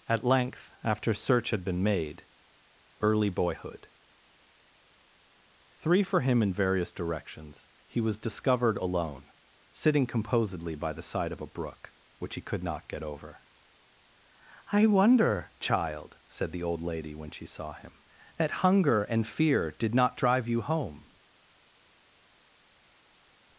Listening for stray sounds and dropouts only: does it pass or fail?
pass